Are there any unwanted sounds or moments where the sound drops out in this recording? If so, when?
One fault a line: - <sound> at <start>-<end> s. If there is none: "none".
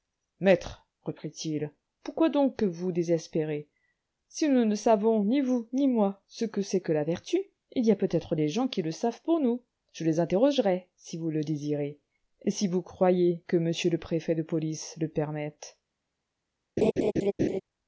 - laugh at 16.8-17.6 s